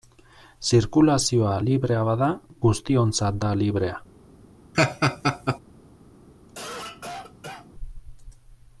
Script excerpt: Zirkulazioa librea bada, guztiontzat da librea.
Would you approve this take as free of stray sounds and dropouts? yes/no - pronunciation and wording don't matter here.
no